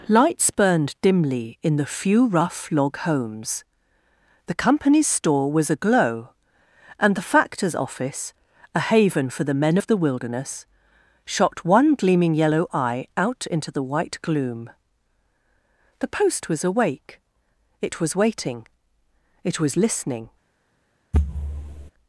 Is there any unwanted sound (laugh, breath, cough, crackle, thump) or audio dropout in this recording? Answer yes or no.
yes